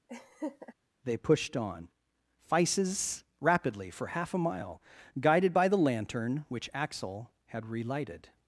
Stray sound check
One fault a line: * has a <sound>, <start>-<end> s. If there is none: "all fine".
* has a laugh, 0.1-0.7 s